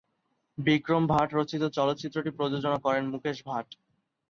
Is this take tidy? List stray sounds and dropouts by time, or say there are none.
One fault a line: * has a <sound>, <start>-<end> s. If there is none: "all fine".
all fine